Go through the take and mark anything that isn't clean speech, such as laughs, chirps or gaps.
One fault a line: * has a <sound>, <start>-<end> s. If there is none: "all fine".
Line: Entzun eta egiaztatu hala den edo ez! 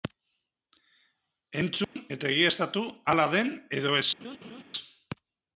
* has a dropout, 1.8-2.0 s
* has a laugh, 4.2-4.6 s